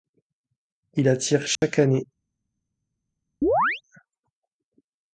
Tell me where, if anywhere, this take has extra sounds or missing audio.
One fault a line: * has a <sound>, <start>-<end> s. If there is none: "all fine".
* has a dropout, 1.6-1.6 s
* has a chirp, 3.4-3.8 s